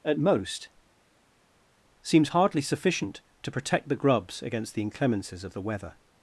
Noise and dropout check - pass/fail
pass